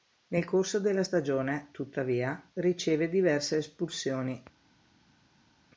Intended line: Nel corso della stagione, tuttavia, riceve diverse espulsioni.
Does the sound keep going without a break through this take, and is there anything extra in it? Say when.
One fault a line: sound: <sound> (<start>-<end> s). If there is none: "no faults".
no faults